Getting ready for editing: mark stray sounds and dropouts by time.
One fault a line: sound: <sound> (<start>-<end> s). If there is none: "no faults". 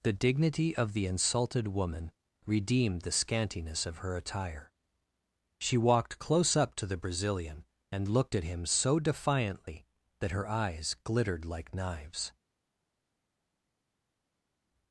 no faults